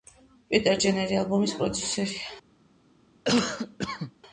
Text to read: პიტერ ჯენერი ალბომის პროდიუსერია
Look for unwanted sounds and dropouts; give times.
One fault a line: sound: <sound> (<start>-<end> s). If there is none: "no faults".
sound: cough (3.2-4.1 s)